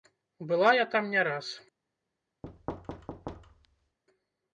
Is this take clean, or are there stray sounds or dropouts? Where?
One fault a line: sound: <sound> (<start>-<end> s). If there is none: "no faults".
sound: thud (2.4-4.0 s)